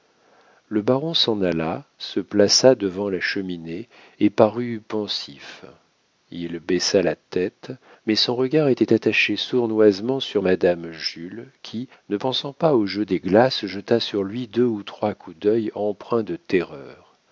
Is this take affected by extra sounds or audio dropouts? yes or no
no